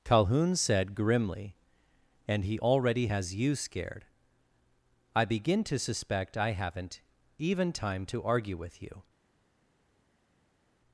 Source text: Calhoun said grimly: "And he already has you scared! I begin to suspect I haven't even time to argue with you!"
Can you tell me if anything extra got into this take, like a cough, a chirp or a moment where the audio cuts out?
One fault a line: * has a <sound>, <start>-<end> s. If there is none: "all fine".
all fine